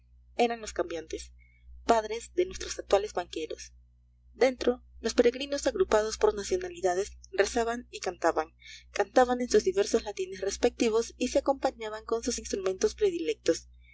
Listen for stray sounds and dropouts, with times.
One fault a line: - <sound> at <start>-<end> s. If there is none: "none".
none